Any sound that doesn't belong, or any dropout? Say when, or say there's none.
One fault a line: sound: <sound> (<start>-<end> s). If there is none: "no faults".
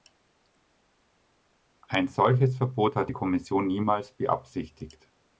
no faults